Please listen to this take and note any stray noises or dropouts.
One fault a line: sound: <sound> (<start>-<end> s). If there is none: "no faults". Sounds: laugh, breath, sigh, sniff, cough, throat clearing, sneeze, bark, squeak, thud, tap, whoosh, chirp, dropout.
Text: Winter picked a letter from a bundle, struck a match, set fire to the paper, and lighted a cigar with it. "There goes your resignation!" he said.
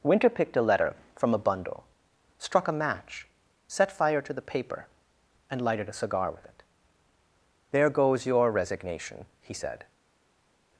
no faults